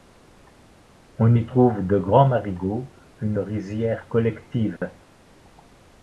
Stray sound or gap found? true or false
true